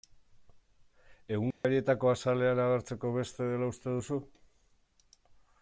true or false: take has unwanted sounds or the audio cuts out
true